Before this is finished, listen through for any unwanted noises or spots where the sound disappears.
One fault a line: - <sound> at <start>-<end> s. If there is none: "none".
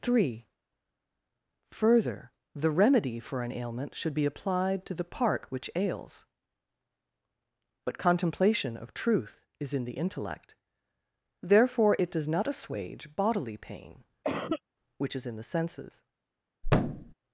- cough at 14.2-14.6 s
- thud at 16.6-17.1 s